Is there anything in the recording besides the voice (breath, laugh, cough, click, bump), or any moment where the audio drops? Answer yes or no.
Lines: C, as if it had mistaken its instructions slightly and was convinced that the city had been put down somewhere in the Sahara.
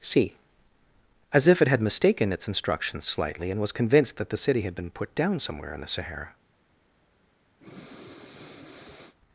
yes